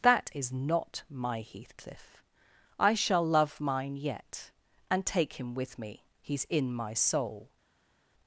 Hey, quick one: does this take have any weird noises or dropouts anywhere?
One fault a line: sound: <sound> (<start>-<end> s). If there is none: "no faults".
no faults